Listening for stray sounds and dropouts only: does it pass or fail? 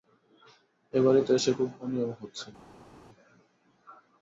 pass